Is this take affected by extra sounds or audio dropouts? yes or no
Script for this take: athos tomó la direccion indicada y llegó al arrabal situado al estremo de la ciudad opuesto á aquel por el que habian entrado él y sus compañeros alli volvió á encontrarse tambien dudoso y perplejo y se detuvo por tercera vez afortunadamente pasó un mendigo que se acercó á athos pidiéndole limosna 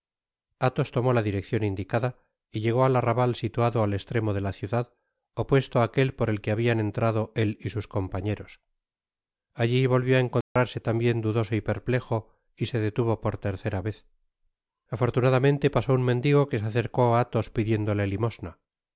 yes